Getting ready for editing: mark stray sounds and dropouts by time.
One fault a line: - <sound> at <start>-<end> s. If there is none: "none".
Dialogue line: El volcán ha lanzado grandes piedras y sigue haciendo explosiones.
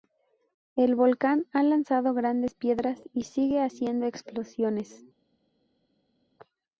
none